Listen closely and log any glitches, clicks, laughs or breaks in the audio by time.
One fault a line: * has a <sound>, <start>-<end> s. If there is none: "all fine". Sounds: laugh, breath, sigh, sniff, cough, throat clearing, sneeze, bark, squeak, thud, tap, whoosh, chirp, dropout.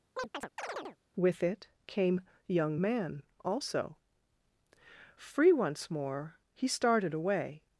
* has a chirp, 0.2-1.0 s